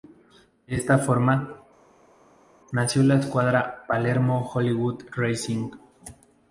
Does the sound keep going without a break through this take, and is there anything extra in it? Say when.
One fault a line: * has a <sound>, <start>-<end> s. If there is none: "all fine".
all fine